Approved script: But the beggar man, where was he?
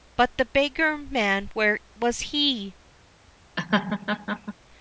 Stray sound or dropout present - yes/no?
yes